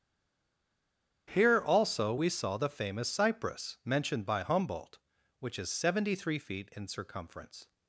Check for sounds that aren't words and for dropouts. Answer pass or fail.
pass